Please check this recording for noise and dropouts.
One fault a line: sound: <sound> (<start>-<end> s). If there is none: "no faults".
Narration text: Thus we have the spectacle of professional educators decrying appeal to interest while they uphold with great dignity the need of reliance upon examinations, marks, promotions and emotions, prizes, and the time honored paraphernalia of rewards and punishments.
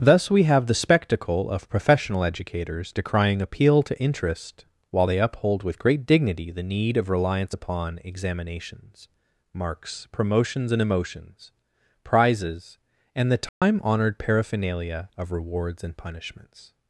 sound: dropout (13.5-13.6 s)